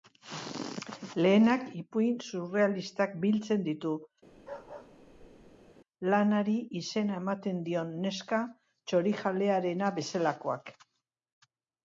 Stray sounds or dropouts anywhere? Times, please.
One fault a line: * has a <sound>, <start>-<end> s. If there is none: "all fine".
* has a bark, 4.3-5.7 s